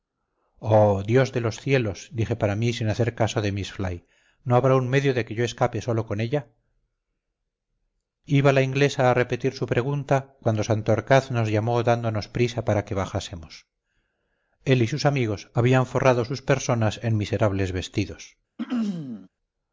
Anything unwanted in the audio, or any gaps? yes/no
yes